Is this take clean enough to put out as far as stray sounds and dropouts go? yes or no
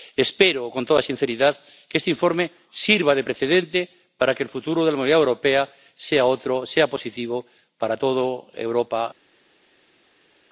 yes